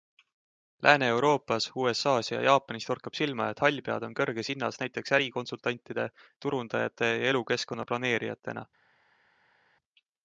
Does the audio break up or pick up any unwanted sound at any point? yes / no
no